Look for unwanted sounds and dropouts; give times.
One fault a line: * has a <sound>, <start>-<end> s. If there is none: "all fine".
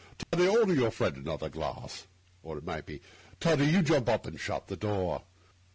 * has a dropout, 0.2-0.3 s